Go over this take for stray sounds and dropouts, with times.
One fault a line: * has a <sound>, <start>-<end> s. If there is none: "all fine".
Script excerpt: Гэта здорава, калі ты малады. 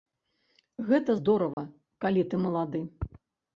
* has a dropout, 1.5-1.6 s